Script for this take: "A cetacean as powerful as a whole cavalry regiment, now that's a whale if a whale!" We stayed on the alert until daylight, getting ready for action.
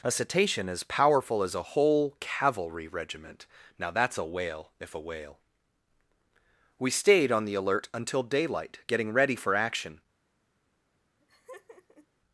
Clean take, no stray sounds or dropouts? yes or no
no